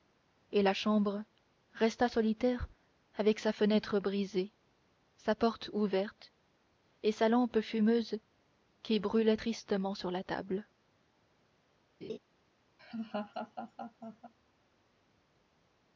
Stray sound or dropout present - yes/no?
yes